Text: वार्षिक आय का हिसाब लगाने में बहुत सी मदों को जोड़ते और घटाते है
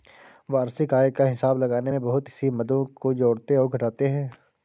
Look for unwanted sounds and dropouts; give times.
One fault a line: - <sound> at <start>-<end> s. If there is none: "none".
none